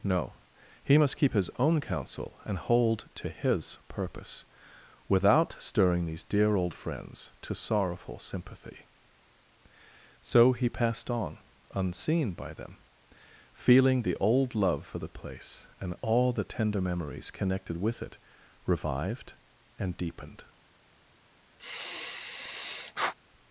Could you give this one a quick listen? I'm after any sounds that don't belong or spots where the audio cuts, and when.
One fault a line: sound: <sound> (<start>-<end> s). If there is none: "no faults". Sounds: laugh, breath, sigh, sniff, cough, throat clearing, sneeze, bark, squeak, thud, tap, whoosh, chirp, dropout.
sound: sigh (21.6-23.1 s)